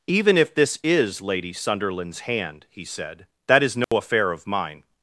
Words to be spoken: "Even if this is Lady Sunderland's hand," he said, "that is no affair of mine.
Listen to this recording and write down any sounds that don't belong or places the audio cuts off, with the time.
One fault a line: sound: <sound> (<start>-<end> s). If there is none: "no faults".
sound: dropout (3.8-3.9 s)